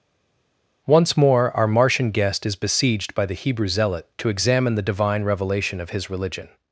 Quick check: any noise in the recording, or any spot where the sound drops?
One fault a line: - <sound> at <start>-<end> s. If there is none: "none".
none